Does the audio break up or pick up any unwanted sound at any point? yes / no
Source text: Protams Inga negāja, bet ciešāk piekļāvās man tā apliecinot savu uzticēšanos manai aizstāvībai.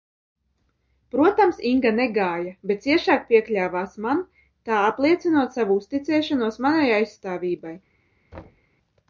yes